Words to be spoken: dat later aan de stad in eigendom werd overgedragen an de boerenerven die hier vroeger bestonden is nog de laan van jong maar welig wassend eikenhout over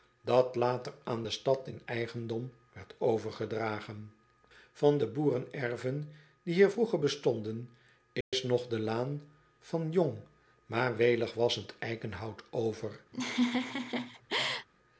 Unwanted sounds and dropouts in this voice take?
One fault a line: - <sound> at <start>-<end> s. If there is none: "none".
- dropout at 8.2-8.3 s
- laugh at 13.1-14.7 s